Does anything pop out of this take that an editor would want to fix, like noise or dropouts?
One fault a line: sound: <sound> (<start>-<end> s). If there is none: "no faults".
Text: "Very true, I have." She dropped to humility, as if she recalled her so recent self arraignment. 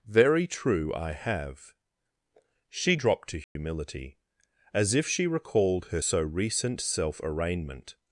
sound: dropout (3.4-3.6 s)